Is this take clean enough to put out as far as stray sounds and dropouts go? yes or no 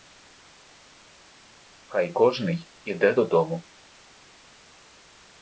yes